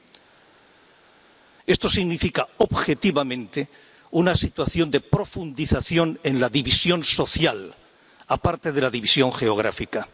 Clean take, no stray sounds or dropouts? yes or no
yes